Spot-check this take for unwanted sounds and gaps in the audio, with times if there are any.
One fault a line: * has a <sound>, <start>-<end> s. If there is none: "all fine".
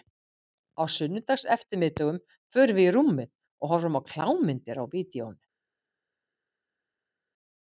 all fine